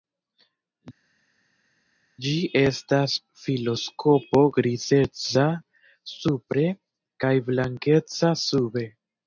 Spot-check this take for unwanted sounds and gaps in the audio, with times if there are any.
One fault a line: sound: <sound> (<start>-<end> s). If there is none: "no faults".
no faults